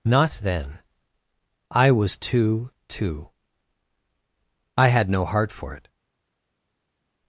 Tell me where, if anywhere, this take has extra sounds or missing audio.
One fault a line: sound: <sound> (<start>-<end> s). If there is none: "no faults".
no faults